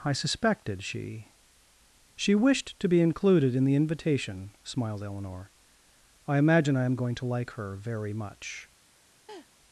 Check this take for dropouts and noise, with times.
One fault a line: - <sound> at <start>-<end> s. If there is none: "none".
- laugh at 9.3-9.5 s